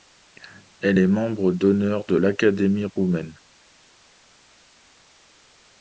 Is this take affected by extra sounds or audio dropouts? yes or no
no